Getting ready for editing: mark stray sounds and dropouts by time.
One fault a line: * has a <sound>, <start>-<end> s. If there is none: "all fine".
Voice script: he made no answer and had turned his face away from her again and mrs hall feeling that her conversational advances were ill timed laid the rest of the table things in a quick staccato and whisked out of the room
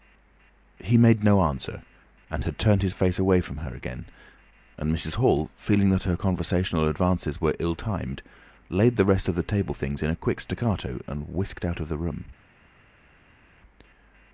all fine